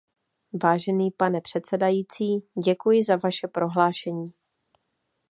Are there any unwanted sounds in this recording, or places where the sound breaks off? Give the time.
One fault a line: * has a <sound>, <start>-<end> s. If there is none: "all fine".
all fine